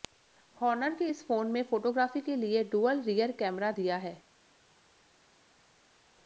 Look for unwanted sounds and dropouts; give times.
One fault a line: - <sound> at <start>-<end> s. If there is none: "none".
none